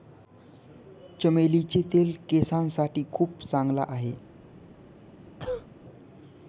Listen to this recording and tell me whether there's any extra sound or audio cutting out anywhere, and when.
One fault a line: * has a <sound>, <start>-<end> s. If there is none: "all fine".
* has a cough, 5.4-5.7 s